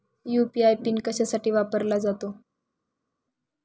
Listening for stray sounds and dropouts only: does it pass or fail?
pass